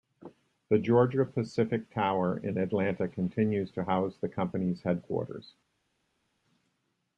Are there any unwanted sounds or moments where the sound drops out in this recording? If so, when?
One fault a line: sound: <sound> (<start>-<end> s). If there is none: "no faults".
no faults